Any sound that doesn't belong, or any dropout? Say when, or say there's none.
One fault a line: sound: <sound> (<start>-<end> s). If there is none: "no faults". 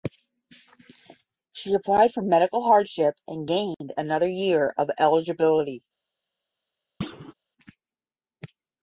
sound: thud (7.0-7.3 s)